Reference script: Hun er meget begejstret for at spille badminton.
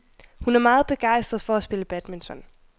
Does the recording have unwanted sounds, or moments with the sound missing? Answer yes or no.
no